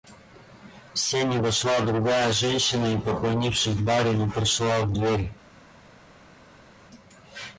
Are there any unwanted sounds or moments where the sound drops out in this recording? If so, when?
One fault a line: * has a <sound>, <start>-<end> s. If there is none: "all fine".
all fine